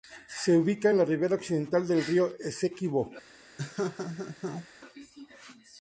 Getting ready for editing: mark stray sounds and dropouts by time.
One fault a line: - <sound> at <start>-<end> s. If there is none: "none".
- laugh at 3.6-4.7 s